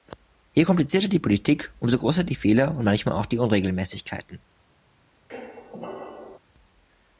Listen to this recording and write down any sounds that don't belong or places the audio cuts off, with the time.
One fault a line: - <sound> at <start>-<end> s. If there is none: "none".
- squeak at 5.3-6.4 s